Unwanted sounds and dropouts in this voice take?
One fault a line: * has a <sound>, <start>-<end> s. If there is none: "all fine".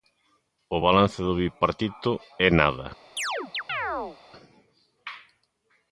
* has a chirp, 3.2-4.2 s